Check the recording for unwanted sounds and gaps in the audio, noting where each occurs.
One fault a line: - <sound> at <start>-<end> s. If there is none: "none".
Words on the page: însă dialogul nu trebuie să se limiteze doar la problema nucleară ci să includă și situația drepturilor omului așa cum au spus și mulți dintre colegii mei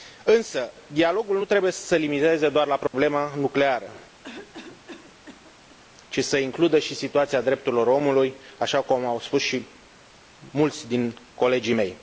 - dropout at 2.9-2.9 s
- cough at 4.2-5.8 s